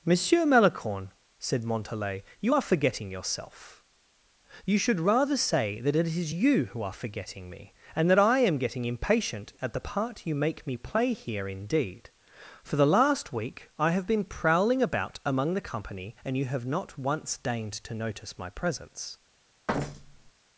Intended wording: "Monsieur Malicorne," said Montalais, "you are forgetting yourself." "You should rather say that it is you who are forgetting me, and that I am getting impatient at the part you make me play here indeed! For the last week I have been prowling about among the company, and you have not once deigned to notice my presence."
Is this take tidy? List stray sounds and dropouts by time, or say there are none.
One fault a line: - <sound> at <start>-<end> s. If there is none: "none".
- thud at 19.7-20.3 s